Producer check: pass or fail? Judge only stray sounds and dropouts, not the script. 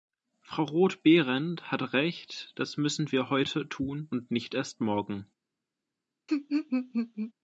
fail